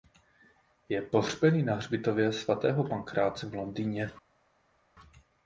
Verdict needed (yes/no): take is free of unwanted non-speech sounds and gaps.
yes